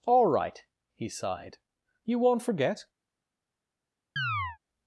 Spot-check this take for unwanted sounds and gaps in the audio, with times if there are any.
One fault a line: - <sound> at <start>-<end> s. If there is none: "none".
- chirp at 4.2-4.6 s